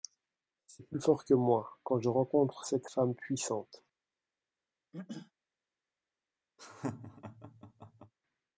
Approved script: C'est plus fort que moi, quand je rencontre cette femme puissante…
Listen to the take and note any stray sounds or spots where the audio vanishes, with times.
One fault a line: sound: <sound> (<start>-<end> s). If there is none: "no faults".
sound: throat clearing (4.9-5.3 s)
sound: laugh (6.6-8.1 s)